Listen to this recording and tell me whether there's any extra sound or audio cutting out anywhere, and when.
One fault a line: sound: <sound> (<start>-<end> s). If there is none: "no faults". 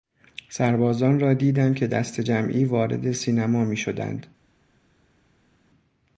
no faults